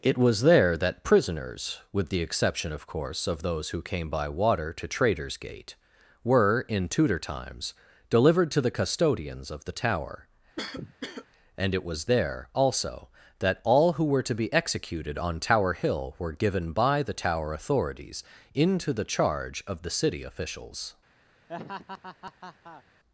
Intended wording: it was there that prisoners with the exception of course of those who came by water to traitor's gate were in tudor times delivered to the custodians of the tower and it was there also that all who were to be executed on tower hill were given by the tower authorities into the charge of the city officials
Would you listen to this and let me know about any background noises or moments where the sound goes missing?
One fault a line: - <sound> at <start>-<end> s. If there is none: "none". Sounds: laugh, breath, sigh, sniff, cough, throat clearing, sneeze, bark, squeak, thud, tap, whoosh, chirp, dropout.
- cough at 10.6-11.3 s
- laugh at 21.5-22.8 s